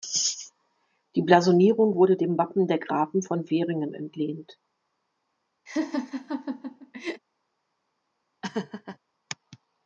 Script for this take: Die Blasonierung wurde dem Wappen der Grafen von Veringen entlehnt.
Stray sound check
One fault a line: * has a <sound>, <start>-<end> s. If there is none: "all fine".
* has a laugh, 5.7-7.2 s
* has a laugh, 8.4-9.0 s